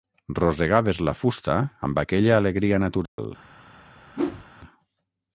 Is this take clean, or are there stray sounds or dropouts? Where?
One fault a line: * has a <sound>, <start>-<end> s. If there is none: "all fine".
* has a dropout, 3.1-3.2 s
* has a whoosh, 4.1-4.5 s